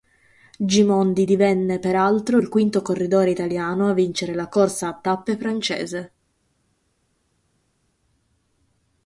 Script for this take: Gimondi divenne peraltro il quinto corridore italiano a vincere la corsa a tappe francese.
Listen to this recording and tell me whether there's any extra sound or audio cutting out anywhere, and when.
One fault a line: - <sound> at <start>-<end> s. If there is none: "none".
none